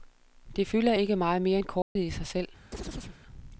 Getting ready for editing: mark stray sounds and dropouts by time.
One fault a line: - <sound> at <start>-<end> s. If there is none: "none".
- dropout at 1.8-2.0 s
- chirp at 2.7-3.2 s